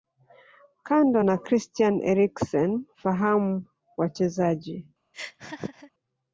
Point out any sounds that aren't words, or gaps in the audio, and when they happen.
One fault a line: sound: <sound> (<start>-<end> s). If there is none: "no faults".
sound: laugh (5.1-5.9 s)